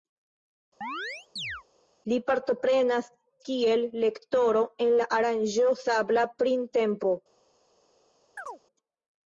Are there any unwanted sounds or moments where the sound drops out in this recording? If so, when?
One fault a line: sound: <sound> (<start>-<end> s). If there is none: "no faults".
sound: chirp (0.8-1.6 s)
sound: chirp (8.4-8.6 s)